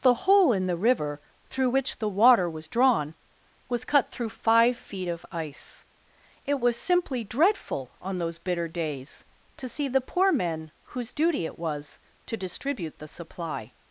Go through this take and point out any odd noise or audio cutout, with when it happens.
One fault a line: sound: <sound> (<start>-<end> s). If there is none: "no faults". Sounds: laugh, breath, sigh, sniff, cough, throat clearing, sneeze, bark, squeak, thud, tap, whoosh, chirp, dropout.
no faults